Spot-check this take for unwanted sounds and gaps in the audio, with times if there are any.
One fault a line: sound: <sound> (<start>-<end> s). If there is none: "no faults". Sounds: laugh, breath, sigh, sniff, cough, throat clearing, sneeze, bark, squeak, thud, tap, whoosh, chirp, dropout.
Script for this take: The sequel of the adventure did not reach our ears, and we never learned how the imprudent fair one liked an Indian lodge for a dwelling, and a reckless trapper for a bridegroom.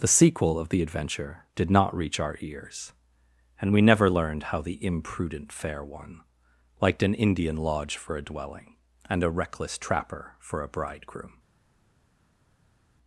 no faults